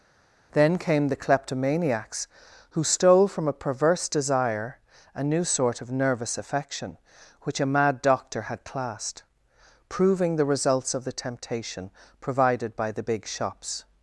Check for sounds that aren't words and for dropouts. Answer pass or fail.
pass